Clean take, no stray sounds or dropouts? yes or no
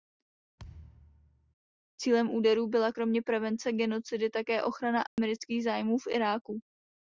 no